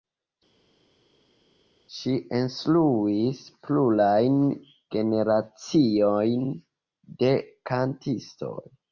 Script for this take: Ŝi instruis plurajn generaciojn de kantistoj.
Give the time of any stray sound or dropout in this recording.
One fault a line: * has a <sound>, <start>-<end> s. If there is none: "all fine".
all fine